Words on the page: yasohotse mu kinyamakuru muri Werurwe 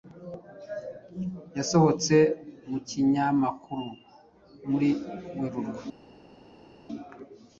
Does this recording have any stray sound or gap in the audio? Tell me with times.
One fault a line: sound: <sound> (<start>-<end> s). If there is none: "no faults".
no faults